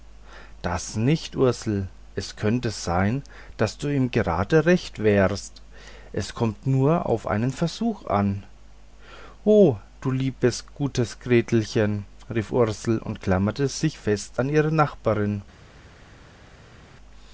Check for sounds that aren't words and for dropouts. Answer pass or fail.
pass